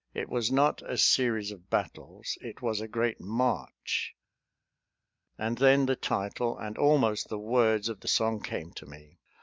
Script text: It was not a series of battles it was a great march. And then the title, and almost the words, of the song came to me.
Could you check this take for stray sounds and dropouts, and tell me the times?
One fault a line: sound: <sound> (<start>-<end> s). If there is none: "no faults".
no faults